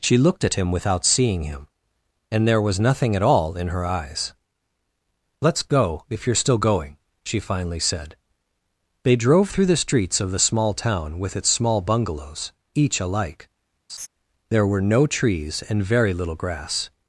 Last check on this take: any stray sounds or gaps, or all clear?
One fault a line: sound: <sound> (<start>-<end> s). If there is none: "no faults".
sound: laugh (13.9-14.1 s)